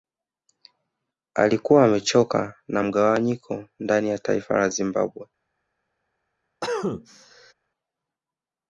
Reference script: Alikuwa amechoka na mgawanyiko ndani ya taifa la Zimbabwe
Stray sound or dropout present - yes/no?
yes